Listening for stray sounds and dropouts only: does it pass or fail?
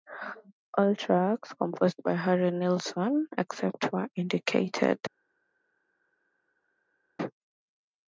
pass